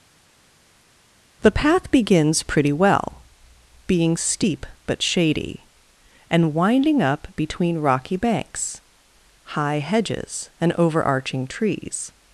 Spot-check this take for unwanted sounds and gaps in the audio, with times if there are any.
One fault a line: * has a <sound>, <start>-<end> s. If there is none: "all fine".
all fine